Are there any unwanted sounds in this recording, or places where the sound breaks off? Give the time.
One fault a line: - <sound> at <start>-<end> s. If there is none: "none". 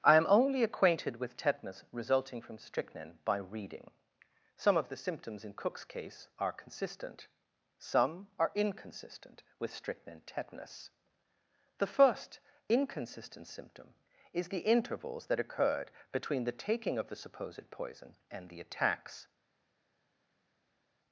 none